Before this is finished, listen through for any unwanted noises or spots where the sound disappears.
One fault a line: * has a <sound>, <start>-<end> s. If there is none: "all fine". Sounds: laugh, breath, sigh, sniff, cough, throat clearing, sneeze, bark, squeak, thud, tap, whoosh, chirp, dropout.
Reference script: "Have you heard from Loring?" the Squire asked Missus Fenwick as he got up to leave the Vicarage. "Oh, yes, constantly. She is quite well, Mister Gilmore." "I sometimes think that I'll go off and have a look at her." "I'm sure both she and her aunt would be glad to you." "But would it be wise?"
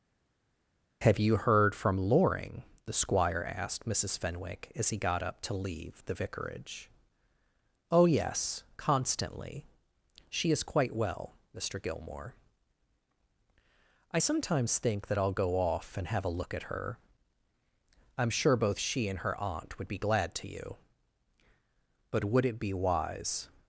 all fine